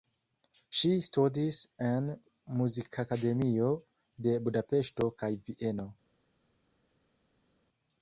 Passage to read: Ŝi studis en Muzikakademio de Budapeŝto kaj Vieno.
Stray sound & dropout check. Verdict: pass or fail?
pass